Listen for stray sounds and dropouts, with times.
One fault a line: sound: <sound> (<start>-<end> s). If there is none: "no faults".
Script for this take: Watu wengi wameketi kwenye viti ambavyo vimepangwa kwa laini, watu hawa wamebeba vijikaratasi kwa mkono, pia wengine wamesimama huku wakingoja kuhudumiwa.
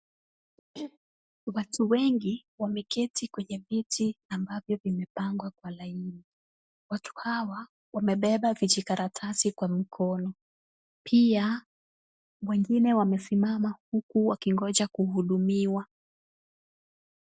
sound: throat clearing (0.7-1.0 s)